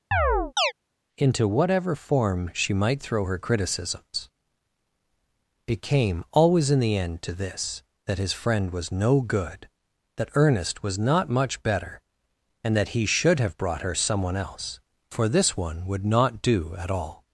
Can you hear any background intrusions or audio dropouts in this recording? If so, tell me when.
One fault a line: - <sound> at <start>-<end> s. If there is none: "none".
- chirp at 0.1-0.7 s